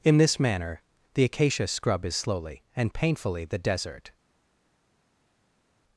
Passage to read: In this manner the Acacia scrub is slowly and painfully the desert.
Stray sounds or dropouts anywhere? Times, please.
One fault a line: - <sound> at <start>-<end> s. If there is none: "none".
none